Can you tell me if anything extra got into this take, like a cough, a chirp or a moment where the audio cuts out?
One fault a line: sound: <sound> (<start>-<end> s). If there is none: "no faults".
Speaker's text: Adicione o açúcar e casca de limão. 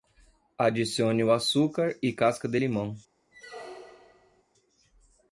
sound: squeak (3.3-4.4 s)